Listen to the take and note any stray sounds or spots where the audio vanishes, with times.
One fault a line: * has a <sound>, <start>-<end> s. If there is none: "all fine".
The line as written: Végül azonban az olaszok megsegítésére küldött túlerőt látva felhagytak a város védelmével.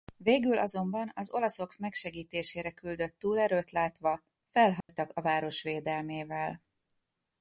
* has a dropout, 4.8-4.9 s